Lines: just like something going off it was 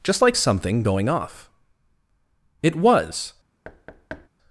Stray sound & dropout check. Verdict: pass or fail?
fail